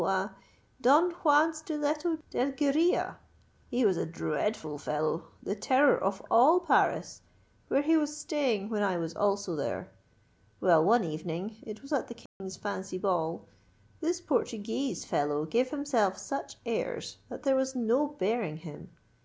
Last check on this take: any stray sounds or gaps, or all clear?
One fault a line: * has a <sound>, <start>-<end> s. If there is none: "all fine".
* has a dropout, 12.3-12.4 s